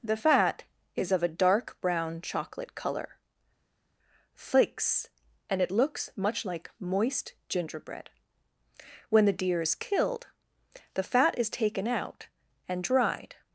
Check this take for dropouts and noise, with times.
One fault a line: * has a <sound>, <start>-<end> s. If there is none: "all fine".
all fine